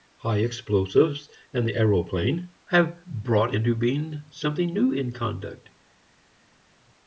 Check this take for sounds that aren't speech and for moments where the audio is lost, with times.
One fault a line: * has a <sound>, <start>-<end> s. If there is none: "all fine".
all fine